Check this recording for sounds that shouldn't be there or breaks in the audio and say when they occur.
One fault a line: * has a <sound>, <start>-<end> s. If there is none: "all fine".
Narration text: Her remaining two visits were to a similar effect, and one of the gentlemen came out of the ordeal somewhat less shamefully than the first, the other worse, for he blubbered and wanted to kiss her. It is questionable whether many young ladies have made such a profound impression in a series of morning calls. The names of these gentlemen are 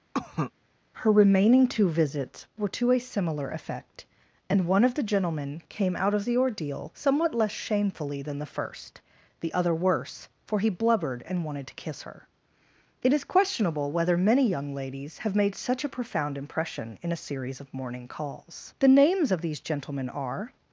* has a cough, 0.1-0.5 s